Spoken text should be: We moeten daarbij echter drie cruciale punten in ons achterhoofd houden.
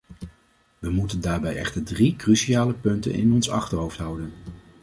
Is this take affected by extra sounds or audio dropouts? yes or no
no